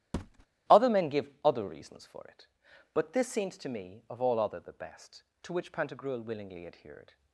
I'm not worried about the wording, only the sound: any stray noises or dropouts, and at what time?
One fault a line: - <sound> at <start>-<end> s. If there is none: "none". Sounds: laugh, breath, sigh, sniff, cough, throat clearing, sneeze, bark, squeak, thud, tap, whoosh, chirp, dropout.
- thud at 0.1-0.5 s